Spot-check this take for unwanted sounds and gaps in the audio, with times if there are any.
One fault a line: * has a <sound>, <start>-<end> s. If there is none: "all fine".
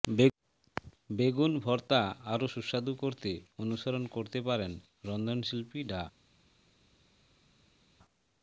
all fine